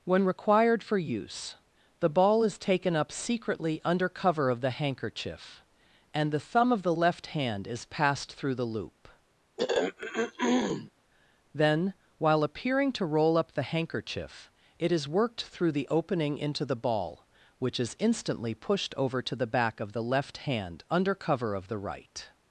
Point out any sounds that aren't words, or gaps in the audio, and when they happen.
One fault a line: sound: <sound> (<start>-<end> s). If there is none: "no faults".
sound: throat clearing (9.6-10.9 s)